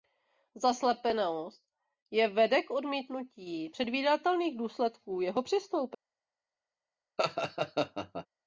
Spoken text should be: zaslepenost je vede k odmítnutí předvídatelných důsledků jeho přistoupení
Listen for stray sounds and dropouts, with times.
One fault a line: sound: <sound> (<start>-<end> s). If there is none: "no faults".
sound: laugh (7.2-8.3 s)